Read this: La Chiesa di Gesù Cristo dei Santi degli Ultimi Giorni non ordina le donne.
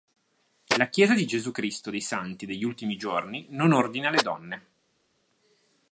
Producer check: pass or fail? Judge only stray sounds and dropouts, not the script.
pass